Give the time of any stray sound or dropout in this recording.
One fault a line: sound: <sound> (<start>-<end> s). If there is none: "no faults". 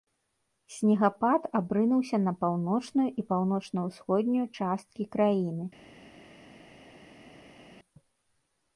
no faults